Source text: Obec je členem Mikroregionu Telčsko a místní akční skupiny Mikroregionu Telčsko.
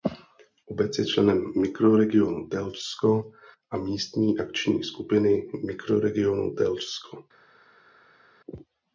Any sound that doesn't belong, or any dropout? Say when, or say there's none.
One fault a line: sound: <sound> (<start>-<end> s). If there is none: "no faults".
no faults